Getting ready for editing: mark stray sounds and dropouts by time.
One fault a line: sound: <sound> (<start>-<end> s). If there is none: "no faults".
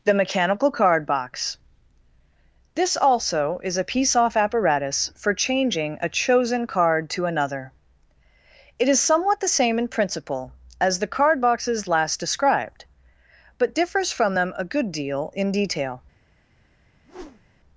sound: whoosh (17.0-17.6 s)